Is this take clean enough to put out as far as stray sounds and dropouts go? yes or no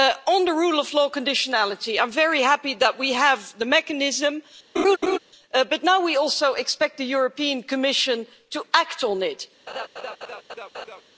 no